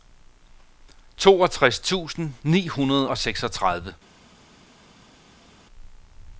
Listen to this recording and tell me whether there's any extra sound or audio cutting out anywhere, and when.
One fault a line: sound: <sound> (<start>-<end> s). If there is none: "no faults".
no faults